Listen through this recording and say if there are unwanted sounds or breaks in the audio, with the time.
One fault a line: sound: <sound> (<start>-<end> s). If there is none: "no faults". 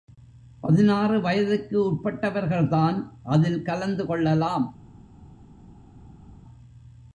no faults